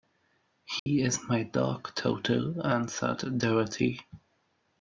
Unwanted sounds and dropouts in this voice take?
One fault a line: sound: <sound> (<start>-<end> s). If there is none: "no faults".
sound: dropout (0.8-0.9 s)